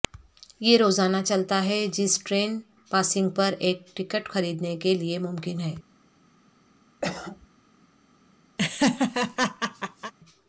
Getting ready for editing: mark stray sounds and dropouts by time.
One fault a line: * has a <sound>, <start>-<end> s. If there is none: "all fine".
* has a cough, 7.0-7.5 s
* has a laugh, 8.6-10.1 s